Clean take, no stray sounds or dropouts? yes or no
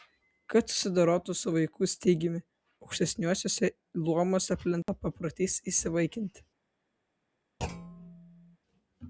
no